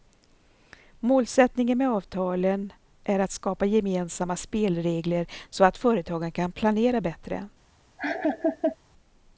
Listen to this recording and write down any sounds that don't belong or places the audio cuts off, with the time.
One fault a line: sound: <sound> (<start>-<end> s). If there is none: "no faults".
sound: laugh (8.0-8.8 s)